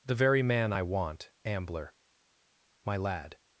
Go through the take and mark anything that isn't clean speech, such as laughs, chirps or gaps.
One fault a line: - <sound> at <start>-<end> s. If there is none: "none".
none